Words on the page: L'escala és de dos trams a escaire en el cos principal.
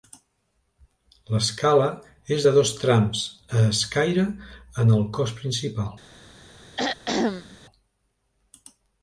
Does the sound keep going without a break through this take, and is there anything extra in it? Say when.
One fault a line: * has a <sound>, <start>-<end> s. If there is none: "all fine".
* has a throat clearing, 6.8-7.6 s